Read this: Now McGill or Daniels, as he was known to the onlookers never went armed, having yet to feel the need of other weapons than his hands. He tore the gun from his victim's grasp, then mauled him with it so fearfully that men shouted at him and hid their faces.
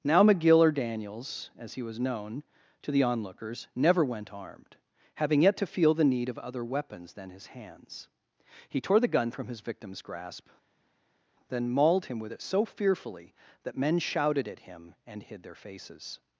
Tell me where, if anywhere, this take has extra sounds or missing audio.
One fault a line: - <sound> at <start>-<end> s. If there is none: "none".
none